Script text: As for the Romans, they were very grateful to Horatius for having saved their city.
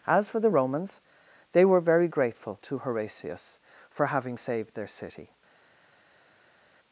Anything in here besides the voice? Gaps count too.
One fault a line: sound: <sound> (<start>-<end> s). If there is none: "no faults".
no faults